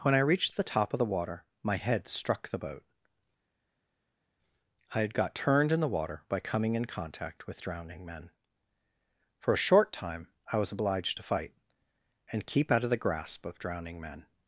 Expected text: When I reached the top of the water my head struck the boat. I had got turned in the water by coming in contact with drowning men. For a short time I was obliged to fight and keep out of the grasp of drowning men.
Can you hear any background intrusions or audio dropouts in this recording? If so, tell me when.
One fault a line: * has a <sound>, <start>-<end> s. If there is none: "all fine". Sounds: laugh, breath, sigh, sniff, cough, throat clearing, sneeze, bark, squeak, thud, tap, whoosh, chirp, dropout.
all fine